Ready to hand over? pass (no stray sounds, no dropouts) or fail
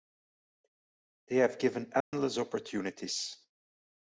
fail